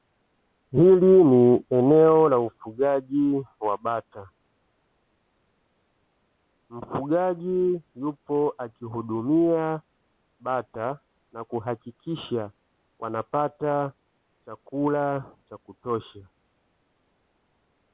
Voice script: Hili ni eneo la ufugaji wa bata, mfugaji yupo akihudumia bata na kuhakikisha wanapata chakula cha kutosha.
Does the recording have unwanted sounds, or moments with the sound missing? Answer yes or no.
no